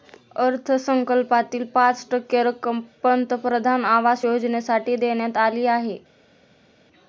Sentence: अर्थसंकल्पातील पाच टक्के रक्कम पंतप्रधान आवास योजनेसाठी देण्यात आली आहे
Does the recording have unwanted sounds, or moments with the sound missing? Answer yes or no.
no